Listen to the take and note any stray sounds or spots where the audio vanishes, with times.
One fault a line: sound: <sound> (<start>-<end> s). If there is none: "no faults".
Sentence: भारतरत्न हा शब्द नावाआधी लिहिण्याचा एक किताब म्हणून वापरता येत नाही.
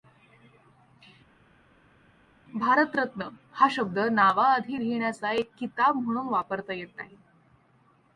no faults